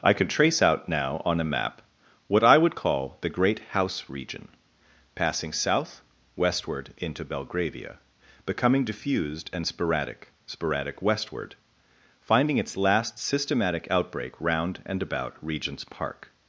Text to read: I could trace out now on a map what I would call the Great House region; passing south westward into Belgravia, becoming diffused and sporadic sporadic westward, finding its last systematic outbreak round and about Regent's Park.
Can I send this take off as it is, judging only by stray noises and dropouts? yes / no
yes